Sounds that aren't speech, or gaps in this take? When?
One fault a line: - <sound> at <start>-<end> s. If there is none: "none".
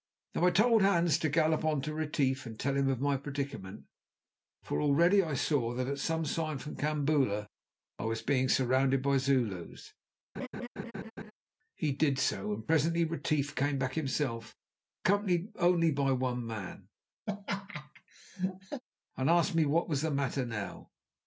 - laugh at 10.3-11.3 s
- laugh at 17.3-18.8 s